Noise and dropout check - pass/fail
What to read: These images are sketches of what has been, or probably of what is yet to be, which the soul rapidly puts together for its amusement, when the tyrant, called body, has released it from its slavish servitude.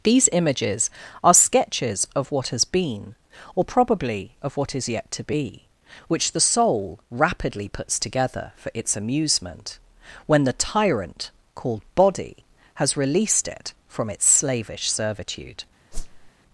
fail